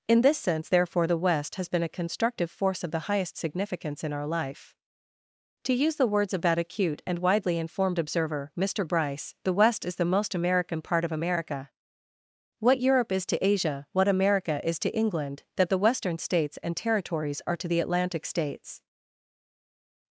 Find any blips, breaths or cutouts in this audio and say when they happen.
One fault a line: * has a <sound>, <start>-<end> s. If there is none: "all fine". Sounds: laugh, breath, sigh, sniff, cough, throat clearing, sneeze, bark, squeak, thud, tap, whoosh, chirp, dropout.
all fine